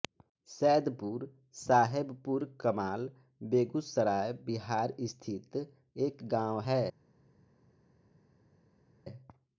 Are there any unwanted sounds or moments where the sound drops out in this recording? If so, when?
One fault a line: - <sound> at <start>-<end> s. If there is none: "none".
none